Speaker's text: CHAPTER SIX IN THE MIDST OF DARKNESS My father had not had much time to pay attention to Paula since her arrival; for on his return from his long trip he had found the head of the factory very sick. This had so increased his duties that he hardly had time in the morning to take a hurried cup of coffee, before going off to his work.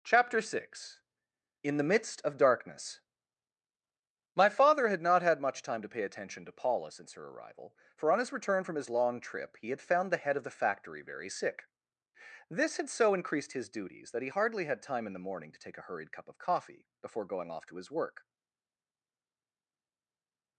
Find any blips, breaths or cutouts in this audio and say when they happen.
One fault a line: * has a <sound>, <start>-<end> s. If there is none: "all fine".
all fine